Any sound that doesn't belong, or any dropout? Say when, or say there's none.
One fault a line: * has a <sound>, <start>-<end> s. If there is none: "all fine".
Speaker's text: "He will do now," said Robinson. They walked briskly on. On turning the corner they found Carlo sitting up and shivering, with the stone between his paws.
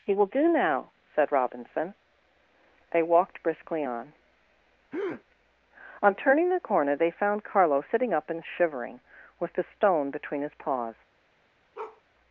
* has a breath, 4.9-5.2 s
* has a bark, 11.7-12.0 s